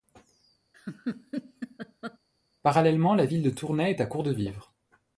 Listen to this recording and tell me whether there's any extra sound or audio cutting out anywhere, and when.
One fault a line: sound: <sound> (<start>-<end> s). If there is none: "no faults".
sound: laugh (0.7-2.2 s)